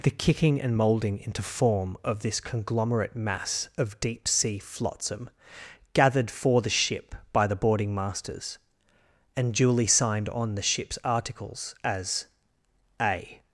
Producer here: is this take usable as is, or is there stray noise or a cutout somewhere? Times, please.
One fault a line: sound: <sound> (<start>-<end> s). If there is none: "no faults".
no faults